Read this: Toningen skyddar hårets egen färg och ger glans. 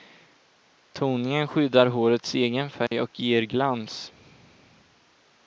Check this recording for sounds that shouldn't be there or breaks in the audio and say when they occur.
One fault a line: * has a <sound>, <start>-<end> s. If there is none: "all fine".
* has a dropout, 2.9-2.9 s